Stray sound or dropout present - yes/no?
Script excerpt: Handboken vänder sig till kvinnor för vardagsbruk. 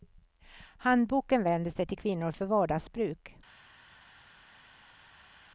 no